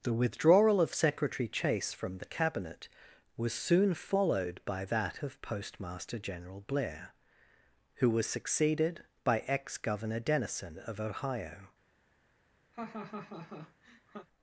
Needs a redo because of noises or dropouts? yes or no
yes